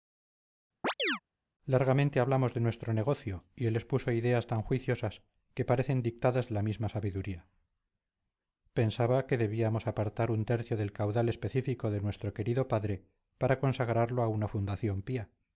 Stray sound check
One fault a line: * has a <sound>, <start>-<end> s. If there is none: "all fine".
* has a chirp, 0.8-1.2 s